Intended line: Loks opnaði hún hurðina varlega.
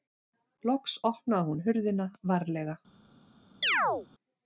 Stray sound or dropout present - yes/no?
yes